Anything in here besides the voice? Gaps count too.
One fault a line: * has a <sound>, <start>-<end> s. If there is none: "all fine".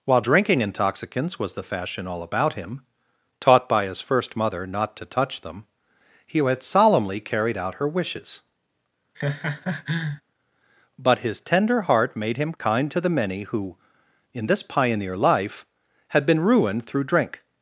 * has a laugh, 9.1-10.2 s